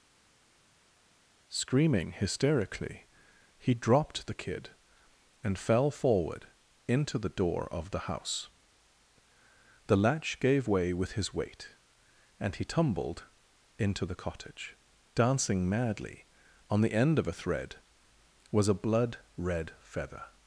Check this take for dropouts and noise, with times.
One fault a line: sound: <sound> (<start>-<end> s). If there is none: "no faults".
no faults